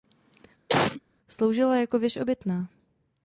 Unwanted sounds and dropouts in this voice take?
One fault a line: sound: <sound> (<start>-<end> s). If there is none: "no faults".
sound: cough (0.7-1.0 s)